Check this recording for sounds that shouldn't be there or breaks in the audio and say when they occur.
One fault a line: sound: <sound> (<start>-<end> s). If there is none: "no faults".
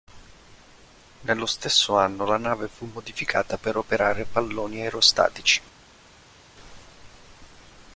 no faults